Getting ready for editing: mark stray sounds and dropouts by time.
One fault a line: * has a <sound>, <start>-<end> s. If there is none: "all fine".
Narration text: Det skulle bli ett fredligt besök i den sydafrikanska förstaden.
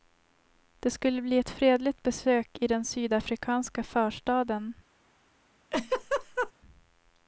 * has a laugh, 5.7-6.5 s